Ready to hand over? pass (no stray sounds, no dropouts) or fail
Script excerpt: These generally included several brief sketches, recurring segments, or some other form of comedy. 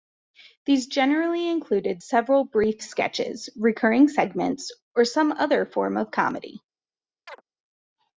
fail